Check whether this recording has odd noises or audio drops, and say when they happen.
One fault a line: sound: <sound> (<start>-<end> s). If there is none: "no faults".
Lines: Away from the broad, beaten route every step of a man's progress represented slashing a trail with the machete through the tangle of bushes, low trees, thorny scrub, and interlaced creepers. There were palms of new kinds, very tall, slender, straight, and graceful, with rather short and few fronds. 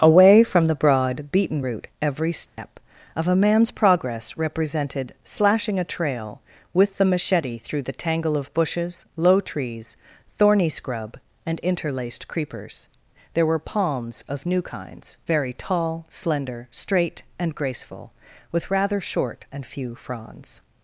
sound: dropout (2.5-2.6 s)